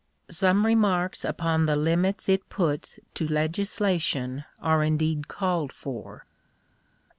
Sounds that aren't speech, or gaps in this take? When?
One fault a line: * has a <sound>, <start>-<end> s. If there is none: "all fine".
all fine